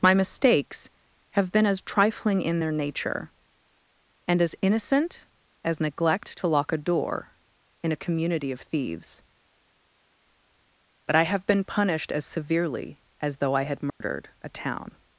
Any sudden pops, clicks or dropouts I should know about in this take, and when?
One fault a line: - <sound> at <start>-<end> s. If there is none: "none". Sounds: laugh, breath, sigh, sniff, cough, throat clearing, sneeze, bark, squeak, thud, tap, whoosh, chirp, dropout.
- dropout at 13.9-14.0 s